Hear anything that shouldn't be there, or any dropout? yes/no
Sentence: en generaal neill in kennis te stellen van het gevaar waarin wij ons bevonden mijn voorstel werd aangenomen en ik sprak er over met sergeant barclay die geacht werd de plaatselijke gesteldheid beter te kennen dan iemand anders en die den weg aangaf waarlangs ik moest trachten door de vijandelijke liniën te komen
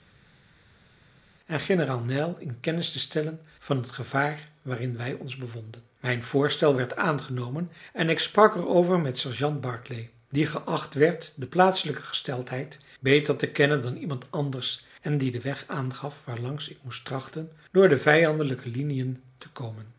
no